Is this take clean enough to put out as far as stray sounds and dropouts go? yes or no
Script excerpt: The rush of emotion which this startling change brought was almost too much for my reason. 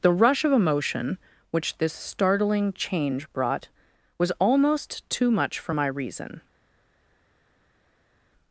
yes